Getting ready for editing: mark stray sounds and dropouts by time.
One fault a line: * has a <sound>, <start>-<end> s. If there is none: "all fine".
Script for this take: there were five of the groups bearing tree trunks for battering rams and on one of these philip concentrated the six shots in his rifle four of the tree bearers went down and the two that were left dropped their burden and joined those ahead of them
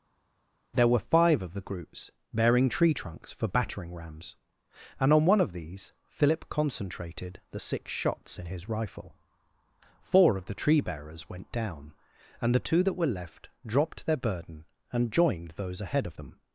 all fine